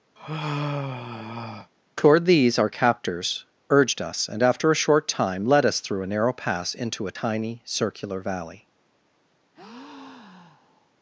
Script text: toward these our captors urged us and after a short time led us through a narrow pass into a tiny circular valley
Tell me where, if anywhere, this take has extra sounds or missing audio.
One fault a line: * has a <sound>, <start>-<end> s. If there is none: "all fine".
* has a sigh, 0.2-1.7 s
* has a breath, 9.5-11.0 s